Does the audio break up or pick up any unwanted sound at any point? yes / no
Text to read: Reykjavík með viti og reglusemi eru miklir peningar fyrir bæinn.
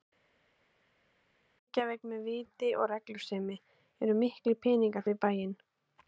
no